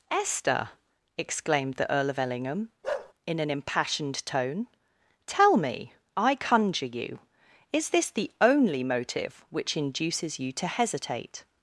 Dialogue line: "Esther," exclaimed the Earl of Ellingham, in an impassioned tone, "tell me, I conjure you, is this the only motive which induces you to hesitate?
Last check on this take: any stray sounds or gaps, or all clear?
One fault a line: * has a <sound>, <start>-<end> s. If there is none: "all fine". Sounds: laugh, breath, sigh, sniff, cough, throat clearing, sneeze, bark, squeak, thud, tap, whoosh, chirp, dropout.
* has a bark, 2.8-3.1 s